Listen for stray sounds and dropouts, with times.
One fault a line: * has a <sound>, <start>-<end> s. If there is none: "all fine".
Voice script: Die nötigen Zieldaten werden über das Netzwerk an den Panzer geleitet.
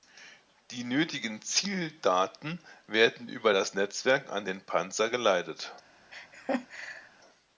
* has a laugh, 6.1-7.1 s